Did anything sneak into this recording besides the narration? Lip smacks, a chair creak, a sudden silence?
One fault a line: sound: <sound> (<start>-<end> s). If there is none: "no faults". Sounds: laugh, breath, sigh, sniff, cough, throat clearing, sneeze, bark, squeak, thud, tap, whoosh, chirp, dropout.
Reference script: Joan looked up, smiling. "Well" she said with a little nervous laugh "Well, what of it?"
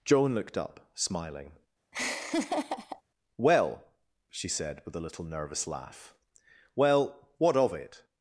sound: laugh (1.9-3.0 s)